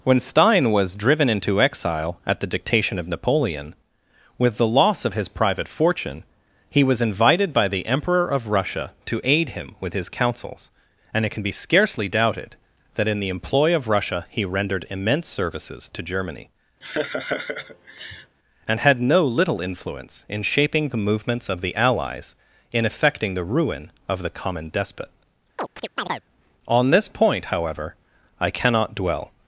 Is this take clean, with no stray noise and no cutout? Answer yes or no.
no